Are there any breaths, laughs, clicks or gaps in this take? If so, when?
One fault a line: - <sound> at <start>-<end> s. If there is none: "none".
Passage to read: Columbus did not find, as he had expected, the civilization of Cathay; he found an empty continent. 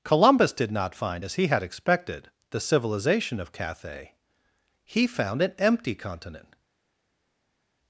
none